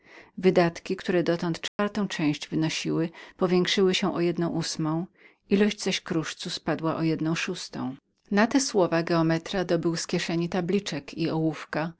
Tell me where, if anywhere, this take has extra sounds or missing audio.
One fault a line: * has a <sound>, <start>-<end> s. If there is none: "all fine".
* has a dropout, 1.7-1.8 s